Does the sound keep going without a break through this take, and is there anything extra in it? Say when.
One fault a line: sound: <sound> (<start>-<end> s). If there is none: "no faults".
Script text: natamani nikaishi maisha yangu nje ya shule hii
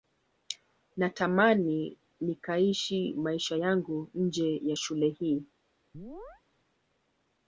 sound: chirp (5.9-6.4 s)